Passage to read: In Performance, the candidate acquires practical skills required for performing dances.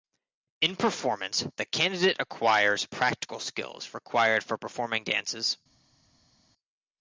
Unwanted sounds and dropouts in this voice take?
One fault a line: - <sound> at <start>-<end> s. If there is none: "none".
none